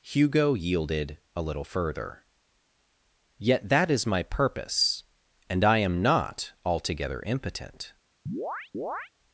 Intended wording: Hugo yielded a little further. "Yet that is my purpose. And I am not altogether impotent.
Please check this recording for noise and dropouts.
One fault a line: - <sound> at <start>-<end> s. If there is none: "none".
- chirp at 8.3-9.1 s